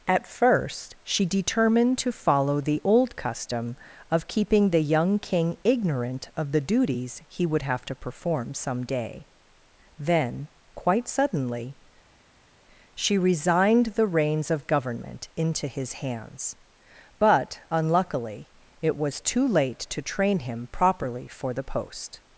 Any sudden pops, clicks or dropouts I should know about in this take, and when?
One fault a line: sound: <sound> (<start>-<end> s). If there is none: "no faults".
no faults